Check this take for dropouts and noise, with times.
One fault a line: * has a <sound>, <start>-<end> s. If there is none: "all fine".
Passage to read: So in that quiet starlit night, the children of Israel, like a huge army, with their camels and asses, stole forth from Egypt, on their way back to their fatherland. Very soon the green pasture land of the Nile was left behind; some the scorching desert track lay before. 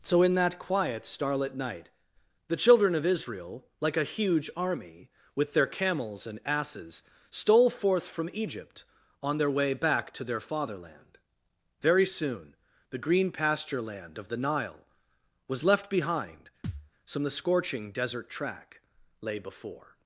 * has a thud, 16.6-16.9 s